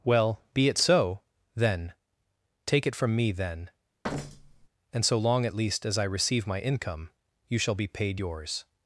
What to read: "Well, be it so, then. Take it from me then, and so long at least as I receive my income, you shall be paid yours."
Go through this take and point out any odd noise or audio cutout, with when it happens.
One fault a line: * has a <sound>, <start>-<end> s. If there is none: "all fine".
* has a thud, 4.0-4.7 s